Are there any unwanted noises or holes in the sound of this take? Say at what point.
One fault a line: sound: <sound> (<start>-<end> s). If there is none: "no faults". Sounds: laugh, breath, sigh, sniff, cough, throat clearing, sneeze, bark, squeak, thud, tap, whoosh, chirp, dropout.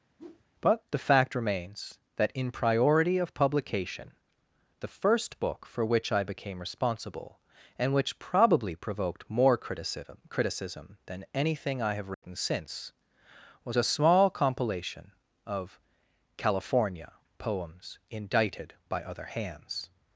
sound: whoosh (0.2-0.5 s)
sound: dropout (12.1-12.2 s)